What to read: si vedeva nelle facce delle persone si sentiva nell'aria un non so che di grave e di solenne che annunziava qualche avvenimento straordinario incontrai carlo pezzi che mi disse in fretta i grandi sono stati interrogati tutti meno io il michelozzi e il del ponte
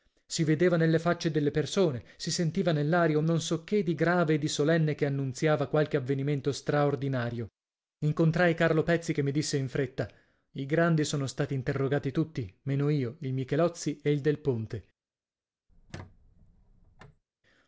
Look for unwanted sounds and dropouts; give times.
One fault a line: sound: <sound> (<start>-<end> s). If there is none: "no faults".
sound: squeak (15.7-17.2 s)